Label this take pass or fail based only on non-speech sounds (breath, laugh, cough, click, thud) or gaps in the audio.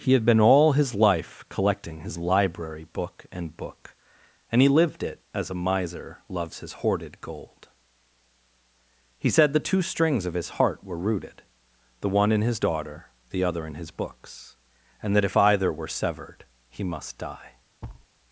fail